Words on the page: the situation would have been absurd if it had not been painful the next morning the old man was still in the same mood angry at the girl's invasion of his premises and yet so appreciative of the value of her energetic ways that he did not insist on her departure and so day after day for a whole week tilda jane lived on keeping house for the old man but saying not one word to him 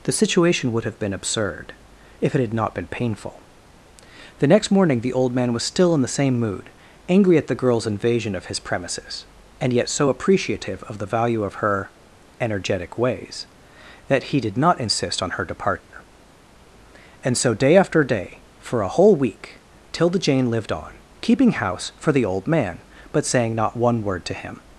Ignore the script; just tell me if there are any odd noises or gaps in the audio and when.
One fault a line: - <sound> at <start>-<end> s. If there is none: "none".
- dropout at 15.8-15.9 s